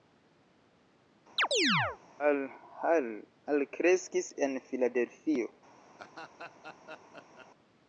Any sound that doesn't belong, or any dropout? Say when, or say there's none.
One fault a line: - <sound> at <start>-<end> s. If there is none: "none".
- chirp at 1.4-2.0 s
- laugh at 6.0-7.5 s